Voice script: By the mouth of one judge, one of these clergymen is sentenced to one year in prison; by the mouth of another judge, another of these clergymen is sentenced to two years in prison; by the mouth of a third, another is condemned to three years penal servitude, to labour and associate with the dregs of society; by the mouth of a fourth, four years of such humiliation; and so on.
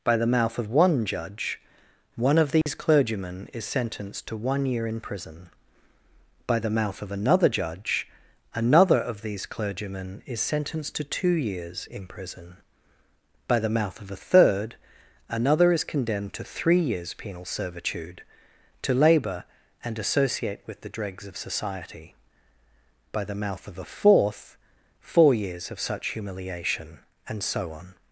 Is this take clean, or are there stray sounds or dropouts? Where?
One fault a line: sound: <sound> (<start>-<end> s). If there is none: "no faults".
sound: dropout (2.6-2.7 s)